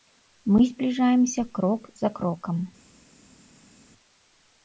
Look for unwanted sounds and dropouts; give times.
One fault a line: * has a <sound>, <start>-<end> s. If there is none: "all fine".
all fine